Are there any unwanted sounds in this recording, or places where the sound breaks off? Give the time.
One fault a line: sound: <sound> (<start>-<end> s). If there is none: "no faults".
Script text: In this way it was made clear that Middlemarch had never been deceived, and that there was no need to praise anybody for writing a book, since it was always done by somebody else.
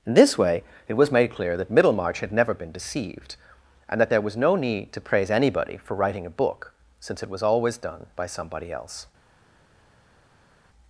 no faults